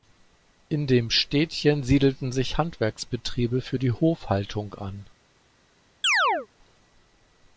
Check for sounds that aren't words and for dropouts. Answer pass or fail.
fail